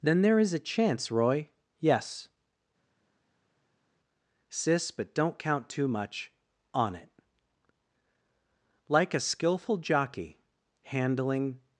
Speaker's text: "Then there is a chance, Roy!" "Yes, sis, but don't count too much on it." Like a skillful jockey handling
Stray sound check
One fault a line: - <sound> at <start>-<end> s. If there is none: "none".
none